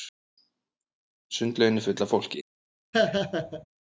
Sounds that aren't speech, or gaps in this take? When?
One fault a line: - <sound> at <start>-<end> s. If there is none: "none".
- laugh at 2.9-3.6 s